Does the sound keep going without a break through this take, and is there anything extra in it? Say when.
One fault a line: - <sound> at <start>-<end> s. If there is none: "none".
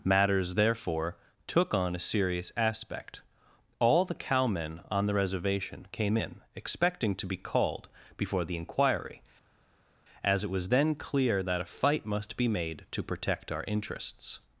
none